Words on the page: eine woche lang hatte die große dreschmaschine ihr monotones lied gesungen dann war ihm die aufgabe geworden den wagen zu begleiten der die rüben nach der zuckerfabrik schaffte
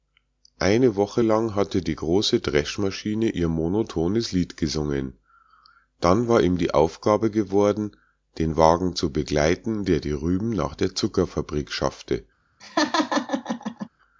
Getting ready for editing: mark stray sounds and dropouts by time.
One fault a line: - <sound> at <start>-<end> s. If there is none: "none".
- laugh at 12.6-13.9 s